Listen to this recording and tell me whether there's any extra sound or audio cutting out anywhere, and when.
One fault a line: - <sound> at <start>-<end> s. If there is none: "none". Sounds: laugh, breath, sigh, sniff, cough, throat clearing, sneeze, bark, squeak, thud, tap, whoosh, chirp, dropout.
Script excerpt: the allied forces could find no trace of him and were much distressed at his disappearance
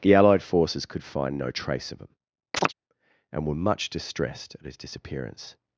- chirp at 2.5-2.7 s